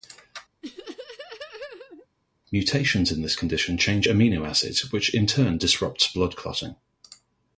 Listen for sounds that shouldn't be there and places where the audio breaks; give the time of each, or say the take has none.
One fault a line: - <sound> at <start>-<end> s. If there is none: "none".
- laugh at 0.6-2.1 s